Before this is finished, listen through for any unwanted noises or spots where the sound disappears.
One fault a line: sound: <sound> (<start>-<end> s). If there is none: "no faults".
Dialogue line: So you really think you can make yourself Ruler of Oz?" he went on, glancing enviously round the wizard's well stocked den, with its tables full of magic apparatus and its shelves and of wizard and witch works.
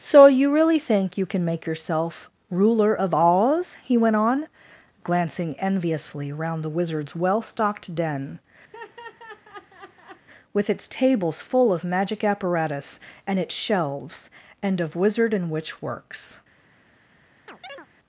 sound: laugh (8.7-10.3 s)
sound: chirp (17.5-17.9 s)